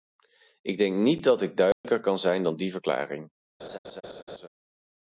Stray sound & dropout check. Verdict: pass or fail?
fail